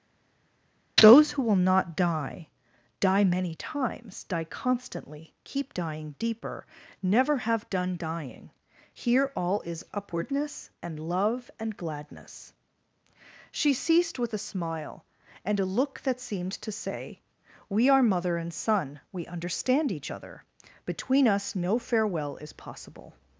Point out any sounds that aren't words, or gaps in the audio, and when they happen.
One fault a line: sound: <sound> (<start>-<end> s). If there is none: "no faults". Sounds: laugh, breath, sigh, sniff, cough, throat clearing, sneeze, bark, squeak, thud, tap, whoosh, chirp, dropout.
no faults